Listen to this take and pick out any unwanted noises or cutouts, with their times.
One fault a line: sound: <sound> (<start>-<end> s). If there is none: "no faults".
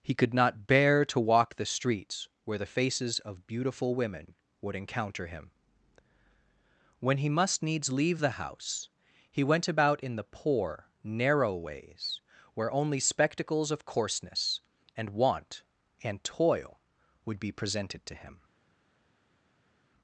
no faults